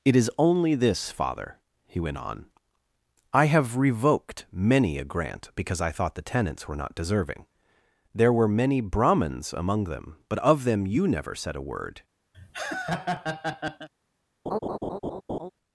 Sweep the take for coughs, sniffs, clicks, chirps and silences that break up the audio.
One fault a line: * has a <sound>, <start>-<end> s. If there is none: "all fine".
* has a laugh, 12.3-13.9 s
* has a laugh, 14.5-15.5 s